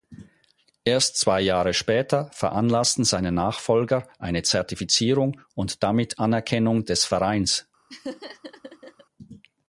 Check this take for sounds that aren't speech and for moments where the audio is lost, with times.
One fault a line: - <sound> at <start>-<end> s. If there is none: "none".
- laugh at 7.9-9.1 s